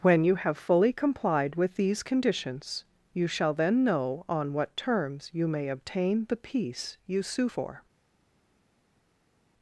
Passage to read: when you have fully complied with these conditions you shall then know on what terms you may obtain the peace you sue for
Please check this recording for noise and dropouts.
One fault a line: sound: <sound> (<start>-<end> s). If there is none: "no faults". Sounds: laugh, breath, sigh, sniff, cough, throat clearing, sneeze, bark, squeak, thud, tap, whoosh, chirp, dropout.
no faults